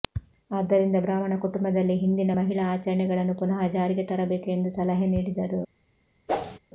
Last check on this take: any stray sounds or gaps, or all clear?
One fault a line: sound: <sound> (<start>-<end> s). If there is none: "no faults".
sound: whoosh (6.3-6.6 s)